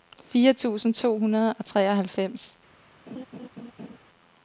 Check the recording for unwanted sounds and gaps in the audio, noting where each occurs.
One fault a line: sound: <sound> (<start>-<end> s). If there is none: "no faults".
sound: laugh (3.1-4.0 s)